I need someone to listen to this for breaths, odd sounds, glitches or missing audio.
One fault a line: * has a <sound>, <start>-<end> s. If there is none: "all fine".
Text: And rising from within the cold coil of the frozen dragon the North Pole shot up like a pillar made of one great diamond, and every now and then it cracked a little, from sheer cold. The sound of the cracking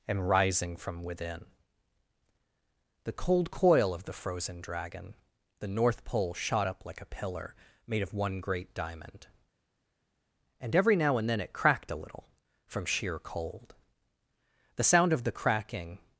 all fine